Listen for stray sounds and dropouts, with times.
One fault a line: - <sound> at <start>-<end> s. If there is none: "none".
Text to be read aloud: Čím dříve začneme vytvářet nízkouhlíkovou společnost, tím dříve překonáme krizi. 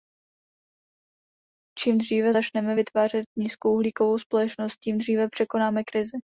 none